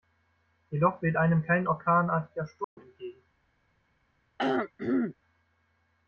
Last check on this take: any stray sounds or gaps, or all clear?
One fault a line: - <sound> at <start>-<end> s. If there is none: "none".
- dropout at 2.6-2.8 s
- throat clearing at 4.4-5.1 s